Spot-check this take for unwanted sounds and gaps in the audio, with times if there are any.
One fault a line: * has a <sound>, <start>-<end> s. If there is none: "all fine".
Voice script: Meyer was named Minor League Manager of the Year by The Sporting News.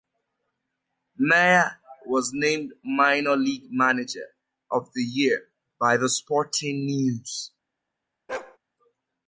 * has a bark, 8.3-8.6 s